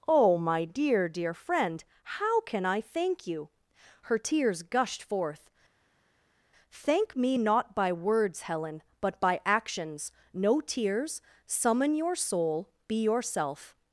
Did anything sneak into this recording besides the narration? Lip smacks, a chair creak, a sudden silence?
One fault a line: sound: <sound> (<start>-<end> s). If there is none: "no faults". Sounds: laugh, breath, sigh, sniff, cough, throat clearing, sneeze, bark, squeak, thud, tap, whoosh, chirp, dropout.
no faults